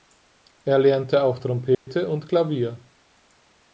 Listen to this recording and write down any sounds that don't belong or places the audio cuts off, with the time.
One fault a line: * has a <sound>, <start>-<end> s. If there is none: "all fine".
* has a dropout, 1.7-1.9 s